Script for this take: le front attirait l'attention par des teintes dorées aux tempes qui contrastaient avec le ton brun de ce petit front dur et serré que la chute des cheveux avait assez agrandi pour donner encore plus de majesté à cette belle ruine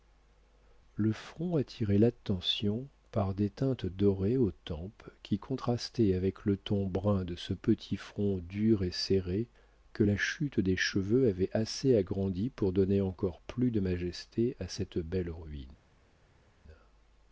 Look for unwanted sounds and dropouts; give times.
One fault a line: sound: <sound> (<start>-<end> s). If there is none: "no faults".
no faults